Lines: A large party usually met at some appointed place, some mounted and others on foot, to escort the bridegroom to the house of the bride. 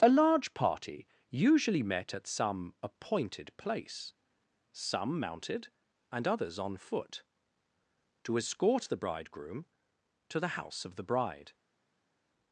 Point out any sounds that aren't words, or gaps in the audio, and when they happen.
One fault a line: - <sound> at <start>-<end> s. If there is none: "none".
none